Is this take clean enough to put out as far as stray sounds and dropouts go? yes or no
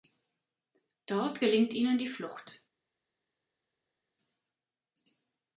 yes